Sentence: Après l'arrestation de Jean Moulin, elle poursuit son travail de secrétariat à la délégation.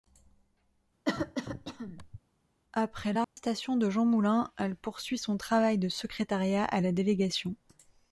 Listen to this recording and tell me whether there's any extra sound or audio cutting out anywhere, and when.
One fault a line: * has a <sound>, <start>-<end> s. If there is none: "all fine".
* has a cough, 1.1-2.2 s
* has a dropout, 3.2-3.4 s